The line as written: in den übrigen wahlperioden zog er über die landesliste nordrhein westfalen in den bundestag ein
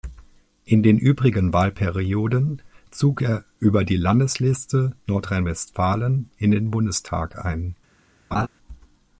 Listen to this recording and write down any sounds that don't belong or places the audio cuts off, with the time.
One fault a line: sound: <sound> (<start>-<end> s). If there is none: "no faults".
sound: laugh (8.3-8.5 s)